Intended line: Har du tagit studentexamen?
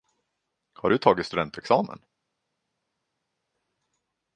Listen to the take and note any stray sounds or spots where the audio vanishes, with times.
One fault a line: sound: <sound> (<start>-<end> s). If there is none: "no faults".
no faults